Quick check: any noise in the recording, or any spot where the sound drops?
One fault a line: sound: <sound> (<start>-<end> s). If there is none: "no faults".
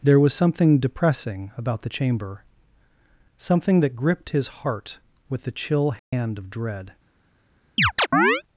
sound: dropout (6.0-6.1 s)
sound: chirp (7.8-8.4 s)